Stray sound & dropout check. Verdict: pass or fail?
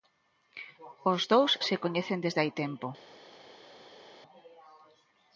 pass